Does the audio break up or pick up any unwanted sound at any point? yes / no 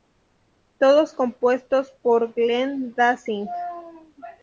no